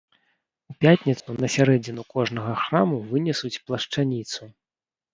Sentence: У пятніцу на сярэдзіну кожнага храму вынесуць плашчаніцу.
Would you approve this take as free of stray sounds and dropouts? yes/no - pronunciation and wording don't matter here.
no